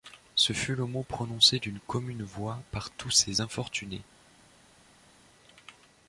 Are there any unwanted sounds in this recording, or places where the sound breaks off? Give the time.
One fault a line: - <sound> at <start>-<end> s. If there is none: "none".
none